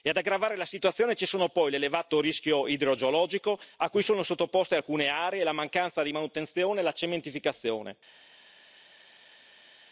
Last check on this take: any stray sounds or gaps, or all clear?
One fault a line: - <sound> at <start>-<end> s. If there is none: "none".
none